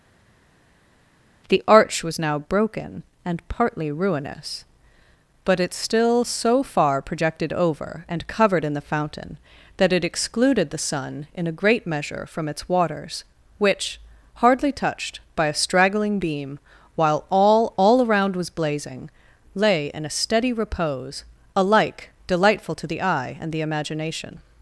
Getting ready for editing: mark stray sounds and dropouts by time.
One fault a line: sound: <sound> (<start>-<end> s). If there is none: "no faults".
no faults